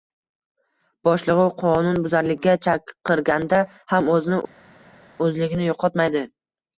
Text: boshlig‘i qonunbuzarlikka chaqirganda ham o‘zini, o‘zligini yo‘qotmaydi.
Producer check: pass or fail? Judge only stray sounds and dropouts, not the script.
pass